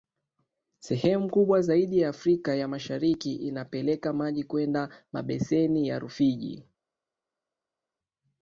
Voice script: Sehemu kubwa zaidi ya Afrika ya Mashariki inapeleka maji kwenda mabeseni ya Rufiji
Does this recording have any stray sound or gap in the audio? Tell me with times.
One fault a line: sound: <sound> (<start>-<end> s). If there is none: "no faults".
no faults